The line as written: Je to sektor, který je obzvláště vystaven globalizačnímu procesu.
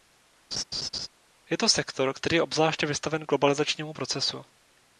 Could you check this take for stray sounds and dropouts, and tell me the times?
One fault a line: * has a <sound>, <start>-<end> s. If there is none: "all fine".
* has a laugh, 0.5-1.1 s